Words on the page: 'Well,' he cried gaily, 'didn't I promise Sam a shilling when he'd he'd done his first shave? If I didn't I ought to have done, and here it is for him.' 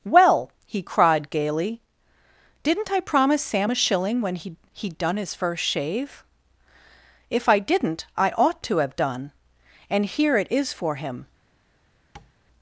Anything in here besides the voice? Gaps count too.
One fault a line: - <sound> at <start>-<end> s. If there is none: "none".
- tap at 12.2-12.3 s